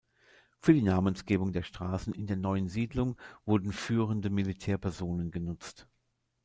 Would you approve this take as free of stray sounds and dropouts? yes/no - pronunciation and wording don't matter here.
yes